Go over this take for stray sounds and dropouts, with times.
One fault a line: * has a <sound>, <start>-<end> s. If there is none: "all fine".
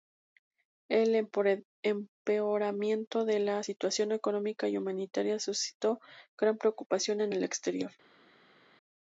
all fine